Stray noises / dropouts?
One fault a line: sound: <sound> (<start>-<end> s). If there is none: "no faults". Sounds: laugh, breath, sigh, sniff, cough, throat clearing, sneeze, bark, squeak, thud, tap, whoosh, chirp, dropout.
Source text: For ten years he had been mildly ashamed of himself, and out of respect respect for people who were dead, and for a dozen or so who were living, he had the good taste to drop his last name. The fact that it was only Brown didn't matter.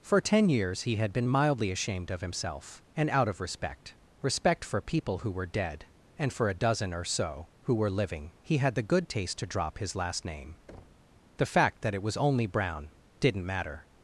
sound: thud (10.7-11.1 s)